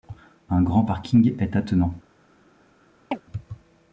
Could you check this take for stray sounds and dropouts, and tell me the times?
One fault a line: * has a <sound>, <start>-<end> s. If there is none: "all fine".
* has a chirp, 3.1-3.2 s